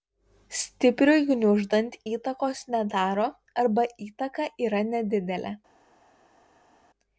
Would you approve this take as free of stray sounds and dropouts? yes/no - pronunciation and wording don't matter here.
yes